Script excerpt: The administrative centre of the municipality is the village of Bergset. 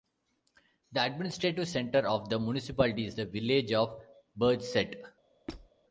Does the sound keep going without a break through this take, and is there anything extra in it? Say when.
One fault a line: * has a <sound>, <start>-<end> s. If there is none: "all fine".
* has a squeak, 5.5-5.7 s